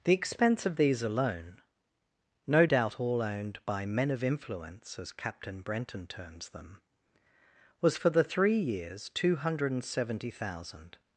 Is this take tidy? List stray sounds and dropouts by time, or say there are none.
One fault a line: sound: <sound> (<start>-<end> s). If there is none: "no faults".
no faults